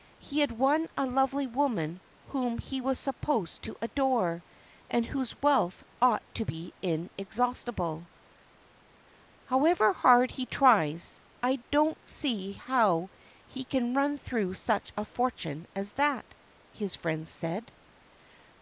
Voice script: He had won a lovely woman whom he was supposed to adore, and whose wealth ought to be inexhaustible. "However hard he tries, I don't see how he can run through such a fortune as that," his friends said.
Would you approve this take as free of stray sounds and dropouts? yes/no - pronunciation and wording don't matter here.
yes